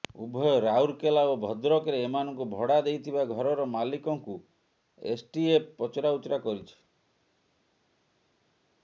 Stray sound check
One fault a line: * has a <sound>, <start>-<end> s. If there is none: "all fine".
all fine